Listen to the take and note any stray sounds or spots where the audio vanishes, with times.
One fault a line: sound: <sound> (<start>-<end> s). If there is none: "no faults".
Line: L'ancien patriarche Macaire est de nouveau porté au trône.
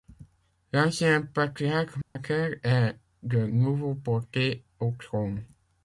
sound: dropout (2.0-2.2 s)